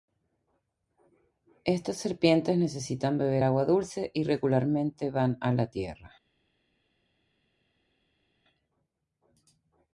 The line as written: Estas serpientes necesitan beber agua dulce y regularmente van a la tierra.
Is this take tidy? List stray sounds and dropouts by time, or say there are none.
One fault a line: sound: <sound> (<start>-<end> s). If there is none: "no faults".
no faults